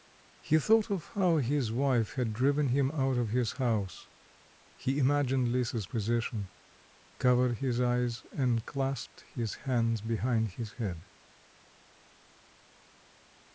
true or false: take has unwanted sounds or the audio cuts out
false